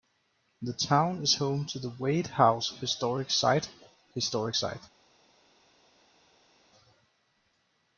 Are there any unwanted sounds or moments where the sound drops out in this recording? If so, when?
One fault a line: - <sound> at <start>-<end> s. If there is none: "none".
none